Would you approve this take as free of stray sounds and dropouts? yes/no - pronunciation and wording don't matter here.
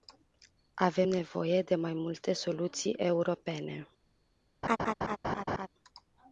no